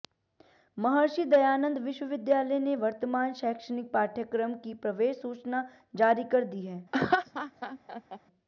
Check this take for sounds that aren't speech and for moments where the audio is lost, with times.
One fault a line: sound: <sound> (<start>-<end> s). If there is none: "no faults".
sound: laugh (6.9-8.2 s)